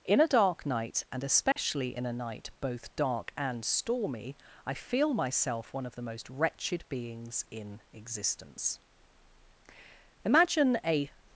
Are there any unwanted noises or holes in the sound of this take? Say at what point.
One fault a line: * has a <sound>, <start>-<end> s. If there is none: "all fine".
* has a dropout, 1.5-1.6 s